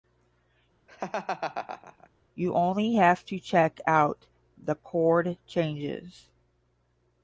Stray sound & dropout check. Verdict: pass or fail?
fail